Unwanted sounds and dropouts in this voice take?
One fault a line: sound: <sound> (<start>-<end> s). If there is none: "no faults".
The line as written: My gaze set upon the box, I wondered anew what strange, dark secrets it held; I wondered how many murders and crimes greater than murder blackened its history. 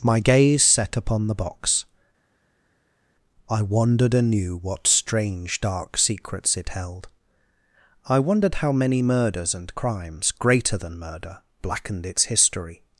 no faults